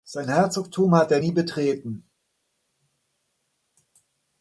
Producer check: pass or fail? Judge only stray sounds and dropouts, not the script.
pass